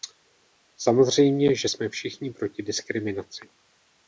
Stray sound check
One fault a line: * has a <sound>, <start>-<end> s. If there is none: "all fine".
all fine